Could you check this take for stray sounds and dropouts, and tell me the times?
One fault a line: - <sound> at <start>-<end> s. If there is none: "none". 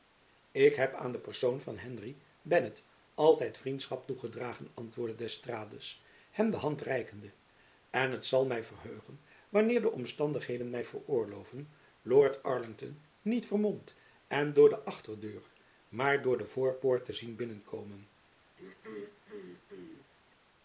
- throat clearing at 18.6-20.1 s